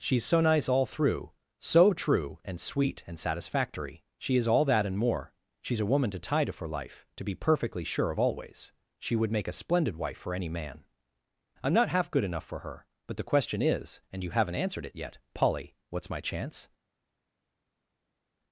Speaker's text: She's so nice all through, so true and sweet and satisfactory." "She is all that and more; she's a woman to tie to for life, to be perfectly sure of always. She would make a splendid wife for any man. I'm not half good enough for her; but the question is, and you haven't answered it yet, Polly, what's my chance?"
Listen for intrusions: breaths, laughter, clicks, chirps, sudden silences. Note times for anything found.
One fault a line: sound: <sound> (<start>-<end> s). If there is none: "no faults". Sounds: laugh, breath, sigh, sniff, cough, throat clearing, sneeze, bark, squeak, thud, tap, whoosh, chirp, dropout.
no faults